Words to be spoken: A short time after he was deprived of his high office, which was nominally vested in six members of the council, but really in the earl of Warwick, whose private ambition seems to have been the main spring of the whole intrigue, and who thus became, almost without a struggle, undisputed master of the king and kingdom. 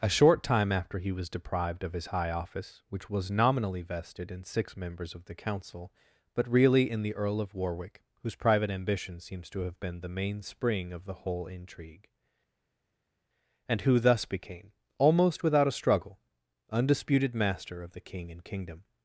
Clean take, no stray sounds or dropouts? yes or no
yes